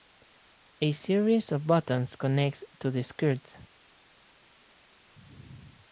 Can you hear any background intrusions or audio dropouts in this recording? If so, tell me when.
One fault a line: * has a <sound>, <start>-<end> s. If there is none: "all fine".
all fine